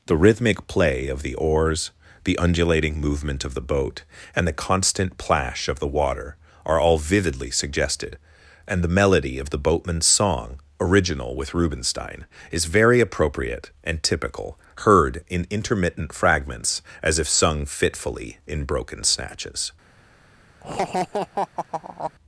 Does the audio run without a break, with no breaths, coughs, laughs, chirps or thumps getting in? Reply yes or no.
no